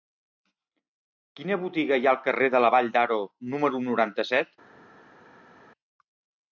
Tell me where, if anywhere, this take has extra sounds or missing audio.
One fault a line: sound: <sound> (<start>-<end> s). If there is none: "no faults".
no faults